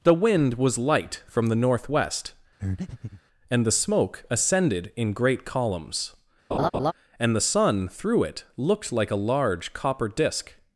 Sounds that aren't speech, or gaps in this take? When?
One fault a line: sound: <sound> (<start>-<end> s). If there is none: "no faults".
sound: breath (2.6-3.2 s)
sound: laugh (6.5-6.9 s)